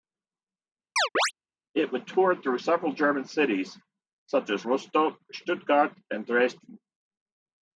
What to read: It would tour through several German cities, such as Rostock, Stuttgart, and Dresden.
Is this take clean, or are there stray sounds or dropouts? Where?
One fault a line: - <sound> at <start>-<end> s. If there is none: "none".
- chirp at 1.0-1.3 s